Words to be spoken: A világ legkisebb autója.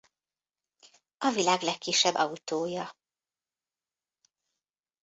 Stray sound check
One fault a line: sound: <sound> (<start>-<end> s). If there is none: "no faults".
no faults